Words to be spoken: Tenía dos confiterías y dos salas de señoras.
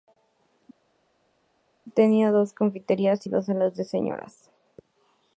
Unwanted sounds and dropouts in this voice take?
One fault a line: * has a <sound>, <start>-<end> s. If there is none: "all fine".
all fine